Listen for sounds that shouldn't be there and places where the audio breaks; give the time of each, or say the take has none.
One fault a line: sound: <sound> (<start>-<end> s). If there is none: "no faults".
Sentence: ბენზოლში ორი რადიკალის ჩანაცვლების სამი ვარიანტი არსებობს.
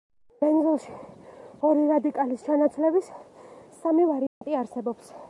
sound: dropout (4.3-4.4 s)